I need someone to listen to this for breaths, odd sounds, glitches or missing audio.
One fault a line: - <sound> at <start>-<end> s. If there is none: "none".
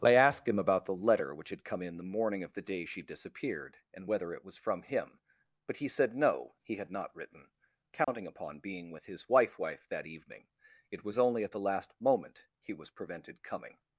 - dropout at 8.0-8.1 s